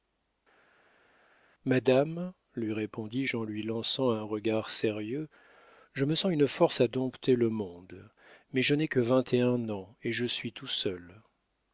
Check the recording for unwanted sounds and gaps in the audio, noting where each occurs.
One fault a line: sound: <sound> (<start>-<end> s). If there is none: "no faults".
no faults